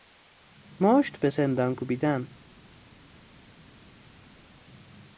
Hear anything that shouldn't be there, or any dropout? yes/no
no